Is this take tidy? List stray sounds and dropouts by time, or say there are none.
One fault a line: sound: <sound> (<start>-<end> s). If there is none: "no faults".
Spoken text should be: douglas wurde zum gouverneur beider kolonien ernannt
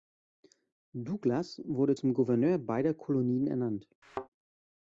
sound: thud (4.0-4.3 s)